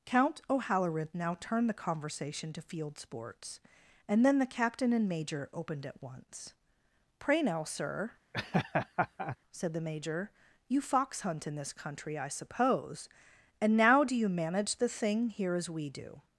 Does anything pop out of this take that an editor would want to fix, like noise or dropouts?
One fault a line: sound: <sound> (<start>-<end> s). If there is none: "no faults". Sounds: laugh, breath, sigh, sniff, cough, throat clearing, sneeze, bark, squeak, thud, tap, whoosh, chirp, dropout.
sound: laugh (8.3-9.4 s)